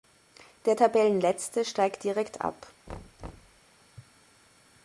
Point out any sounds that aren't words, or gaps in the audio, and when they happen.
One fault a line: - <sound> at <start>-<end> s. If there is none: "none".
- thud at 2.9-3.6 s